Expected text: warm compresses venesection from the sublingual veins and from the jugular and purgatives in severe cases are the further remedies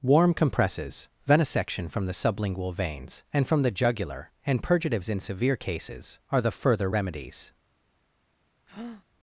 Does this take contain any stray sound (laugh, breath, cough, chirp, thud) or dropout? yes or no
yes